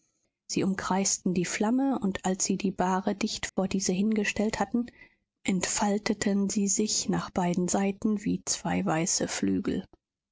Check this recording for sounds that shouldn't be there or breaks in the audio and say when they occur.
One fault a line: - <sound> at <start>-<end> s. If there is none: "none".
- dropout at 3.5-3.6 s